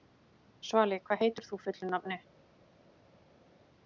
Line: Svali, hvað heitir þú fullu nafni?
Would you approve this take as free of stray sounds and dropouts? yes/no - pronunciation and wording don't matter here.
yes